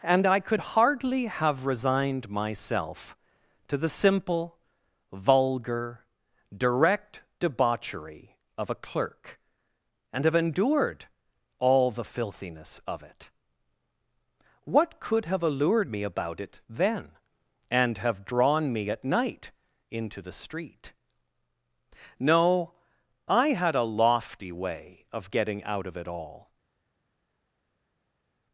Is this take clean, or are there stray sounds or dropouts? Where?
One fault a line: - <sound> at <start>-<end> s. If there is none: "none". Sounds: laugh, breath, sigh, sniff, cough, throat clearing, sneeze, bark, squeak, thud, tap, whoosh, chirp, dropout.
none